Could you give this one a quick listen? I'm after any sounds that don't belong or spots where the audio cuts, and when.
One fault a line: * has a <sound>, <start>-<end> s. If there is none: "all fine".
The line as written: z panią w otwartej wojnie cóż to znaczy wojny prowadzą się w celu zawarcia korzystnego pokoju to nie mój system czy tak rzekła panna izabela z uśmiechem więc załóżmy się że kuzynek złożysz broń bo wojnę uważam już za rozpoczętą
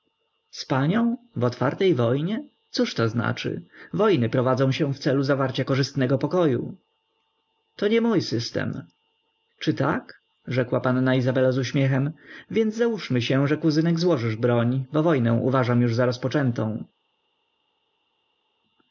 all fine